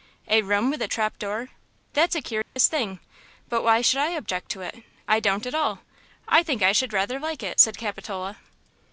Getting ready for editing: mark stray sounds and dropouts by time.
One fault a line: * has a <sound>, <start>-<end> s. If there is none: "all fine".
* has a dropout, 2.4-2.6 s